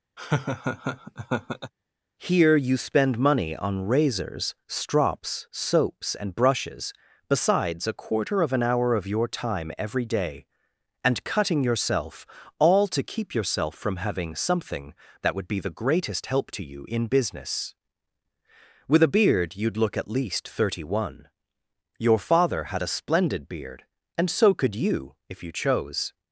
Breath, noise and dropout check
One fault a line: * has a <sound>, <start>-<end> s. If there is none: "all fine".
* has a laugh, 0.2-1.7 s